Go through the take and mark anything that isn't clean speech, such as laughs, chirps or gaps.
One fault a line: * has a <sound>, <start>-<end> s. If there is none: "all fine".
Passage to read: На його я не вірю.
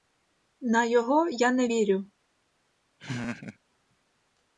* has a laugh, 3.0-3.6 s